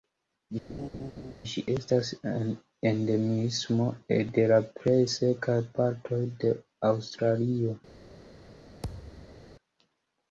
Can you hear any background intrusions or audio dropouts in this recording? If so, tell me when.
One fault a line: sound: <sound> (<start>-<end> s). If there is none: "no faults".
sound: laugh (0.7-1.3 s)
sound: thud (8.8-9.4 s)